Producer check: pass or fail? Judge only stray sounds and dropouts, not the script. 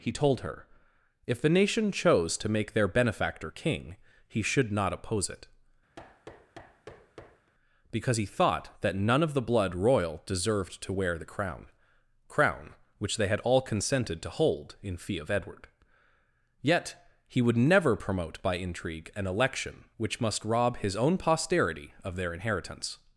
fail